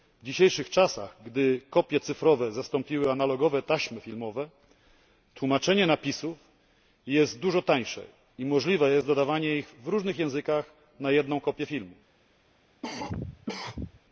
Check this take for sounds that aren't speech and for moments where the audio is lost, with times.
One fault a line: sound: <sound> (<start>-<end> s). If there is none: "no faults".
sound: cough (12.8-14.0 s)